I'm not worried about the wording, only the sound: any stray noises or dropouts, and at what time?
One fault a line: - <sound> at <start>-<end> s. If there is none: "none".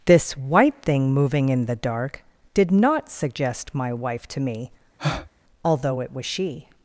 - breath at 5.0-5.3 s